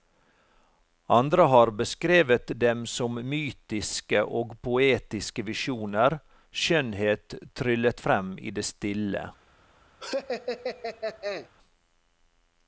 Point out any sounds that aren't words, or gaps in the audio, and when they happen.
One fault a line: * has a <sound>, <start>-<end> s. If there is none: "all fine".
* has a laugh, 10.0-11.5 s